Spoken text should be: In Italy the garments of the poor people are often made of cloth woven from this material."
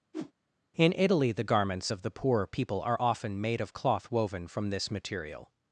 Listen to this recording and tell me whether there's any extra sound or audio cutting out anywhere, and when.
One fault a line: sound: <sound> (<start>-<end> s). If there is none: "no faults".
sound: whoosh (0.1-0.3 s)